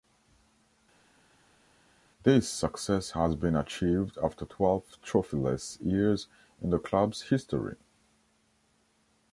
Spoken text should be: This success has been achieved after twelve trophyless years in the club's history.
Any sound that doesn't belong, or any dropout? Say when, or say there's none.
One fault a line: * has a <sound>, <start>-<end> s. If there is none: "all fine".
all fine